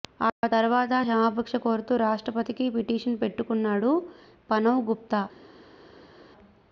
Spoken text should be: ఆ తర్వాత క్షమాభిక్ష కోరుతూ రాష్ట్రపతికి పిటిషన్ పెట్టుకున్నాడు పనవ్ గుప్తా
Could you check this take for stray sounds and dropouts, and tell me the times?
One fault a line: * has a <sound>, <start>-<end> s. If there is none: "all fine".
all fine